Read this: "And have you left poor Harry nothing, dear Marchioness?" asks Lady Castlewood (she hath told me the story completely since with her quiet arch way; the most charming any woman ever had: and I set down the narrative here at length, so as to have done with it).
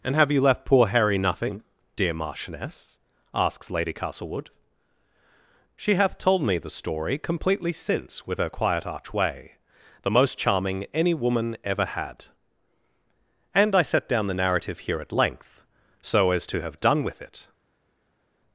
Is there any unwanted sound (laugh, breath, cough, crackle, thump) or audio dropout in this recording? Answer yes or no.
no